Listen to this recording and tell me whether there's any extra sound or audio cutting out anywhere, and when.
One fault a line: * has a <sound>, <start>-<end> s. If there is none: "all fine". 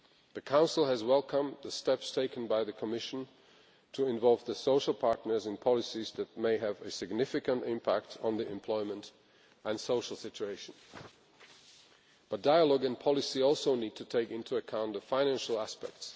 all fine